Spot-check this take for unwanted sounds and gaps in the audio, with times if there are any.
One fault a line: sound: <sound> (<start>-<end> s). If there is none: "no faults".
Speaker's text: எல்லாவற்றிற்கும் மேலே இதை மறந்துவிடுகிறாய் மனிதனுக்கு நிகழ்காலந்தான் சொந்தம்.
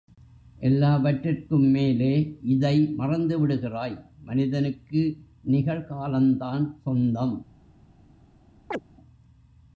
sound: chirp (8.7-8.8 s)